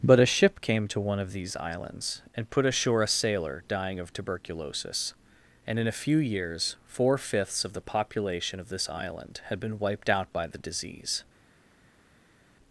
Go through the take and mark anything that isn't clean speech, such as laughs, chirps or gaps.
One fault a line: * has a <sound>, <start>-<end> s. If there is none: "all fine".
all fine